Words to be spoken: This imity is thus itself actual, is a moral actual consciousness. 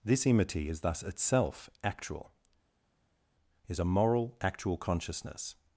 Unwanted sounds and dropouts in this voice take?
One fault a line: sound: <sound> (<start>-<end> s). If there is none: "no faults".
no faults